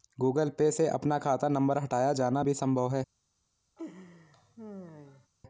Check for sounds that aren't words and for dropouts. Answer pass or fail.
fail